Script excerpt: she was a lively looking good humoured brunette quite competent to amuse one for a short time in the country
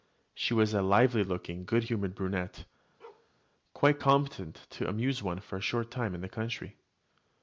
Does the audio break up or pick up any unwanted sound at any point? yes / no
yes